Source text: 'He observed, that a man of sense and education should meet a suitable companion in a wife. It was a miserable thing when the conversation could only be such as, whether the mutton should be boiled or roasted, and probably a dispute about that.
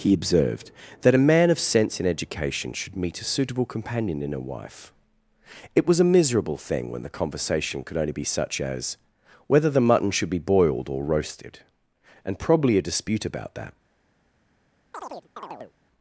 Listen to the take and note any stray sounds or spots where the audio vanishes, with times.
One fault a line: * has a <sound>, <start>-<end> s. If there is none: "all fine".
* has a chirp, 14.9-15.7 s